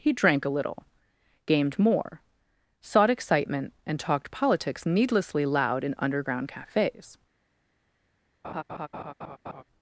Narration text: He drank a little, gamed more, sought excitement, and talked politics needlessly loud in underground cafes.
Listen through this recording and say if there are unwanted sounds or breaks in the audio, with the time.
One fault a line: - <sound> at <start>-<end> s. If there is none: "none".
- laugh at 8.4-9.6 s